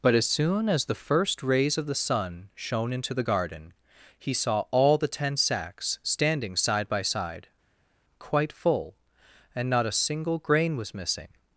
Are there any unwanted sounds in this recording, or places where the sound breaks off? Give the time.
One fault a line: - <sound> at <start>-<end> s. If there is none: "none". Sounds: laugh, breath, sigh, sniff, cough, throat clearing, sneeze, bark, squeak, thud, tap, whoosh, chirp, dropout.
none